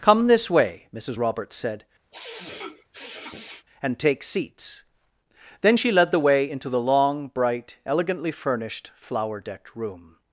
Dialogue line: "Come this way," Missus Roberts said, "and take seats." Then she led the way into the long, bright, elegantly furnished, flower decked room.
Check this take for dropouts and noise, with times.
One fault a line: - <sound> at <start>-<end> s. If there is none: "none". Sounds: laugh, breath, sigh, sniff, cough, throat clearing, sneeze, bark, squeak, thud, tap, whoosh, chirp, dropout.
- sniff at 2.1-3.7 s